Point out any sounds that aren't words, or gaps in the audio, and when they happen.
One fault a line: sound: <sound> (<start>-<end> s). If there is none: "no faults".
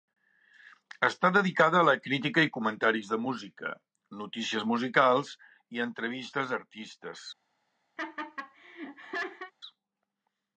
sound: laugh (8.0-9.5 s)